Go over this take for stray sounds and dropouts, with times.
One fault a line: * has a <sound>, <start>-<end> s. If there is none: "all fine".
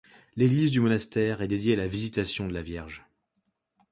all fine